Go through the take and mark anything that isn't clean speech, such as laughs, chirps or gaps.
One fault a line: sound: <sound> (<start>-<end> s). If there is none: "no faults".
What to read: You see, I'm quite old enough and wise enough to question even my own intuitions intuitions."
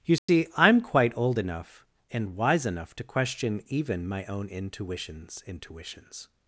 sound: dropout (0.2-0.3 s)